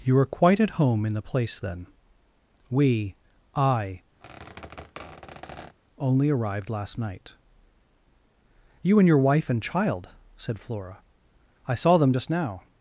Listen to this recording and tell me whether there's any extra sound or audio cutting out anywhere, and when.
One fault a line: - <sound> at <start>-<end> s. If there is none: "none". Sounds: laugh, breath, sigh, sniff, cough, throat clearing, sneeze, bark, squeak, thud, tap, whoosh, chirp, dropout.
- squeak at 4.2-5.8 s